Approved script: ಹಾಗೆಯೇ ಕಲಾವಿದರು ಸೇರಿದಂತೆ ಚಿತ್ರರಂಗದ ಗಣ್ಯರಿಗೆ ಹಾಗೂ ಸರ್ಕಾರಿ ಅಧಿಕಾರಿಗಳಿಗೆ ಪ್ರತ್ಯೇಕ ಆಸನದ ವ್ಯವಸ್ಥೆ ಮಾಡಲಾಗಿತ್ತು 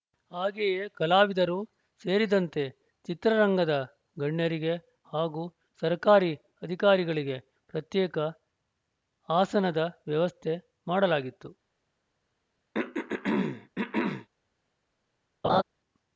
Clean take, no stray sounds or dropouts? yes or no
no